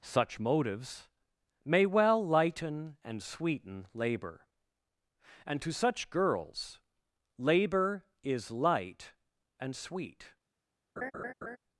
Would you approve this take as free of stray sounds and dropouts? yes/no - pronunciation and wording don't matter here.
no